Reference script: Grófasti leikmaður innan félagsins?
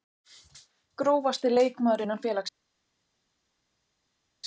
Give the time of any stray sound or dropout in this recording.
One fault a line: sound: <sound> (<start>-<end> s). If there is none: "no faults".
no faults